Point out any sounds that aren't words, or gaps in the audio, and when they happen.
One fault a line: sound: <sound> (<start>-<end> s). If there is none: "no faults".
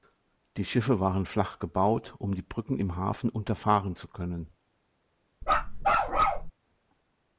sound: bark (5.4-6.5 s)